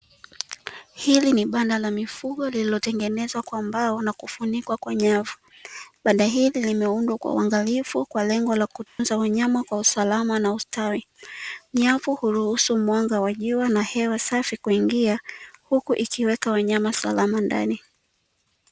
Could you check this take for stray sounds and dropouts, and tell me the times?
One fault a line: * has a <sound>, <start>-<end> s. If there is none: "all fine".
* has a dropout, 8.9-9.0 s